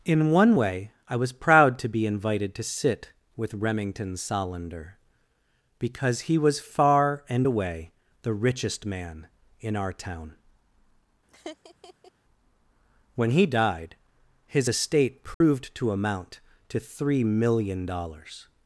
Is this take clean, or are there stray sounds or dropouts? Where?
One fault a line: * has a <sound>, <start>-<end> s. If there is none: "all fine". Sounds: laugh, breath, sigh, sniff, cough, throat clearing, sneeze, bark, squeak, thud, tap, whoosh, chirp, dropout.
* has a laugh, 11.3-12.1 s
* has a dropout, 15.3-15.4 s